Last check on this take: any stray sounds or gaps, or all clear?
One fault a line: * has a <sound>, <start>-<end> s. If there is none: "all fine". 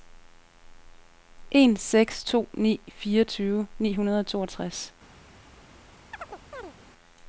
* has a chirp, 6.1-6.7 s